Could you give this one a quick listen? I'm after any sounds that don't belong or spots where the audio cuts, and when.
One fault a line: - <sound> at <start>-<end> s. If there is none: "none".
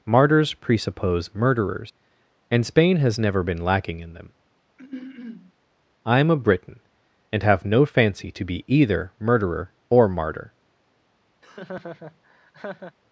- throat clearing at 4.8-5.5 s
- laugh at 11.4-13.0 s